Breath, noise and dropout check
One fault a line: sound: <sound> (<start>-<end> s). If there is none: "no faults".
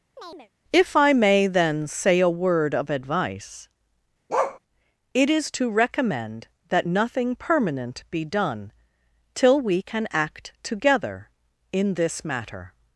sound: chirp (0.2-0.5 s)
sound: bark (4.3-4.6 s)